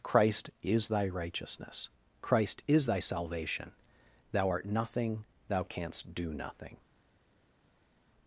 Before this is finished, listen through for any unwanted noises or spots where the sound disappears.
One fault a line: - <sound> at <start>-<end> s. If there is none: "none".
none